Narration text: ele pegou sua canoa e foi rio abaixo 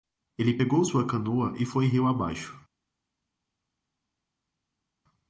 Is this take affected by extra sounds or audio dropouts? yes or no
no